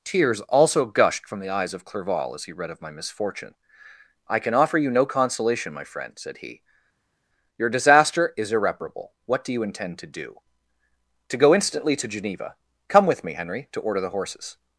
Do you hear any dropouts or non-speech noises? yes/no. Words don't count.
no